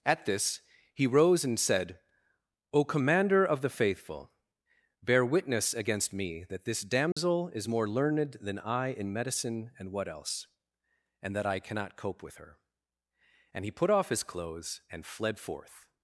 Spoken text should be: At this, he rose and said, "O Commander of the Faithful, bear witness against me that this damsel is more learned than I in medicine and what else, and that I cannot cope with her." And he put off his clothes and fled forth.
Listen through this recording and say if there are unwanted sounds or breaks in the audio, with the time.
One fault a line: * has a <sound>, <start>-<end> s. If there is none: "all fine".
* has a dropout, 7.1-7.2 s